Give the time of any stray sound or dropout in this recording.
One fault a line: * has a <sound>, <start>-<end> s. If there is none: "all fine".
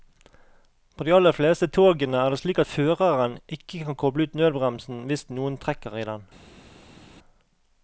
all fine